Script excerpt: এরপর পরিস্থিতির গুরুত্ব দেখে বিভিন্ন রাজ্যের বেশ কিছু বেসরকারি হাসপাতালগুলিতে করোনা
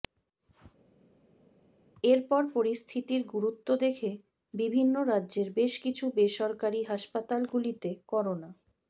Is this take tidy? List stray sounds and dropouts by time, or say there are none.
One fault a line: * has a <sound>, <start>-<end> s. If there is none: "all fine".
all fine